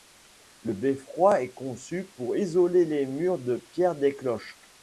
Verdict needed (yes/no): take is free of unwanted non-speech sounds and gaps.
yes